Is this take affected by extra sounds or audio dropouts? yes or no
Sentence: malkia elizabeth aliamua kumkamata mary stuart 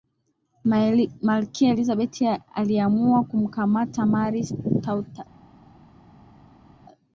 no